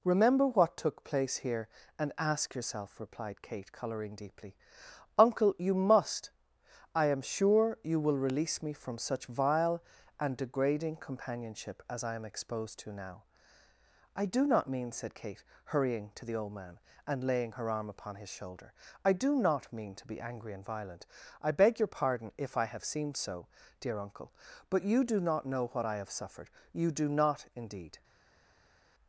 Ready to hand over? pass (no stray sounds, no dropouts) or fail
pass